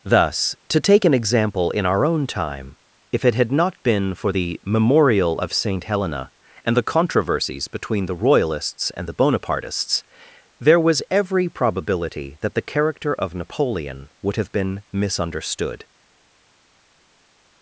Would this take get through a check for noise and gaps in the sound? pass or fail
pass